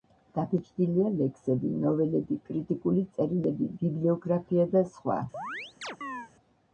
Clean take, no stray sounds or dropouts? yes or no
no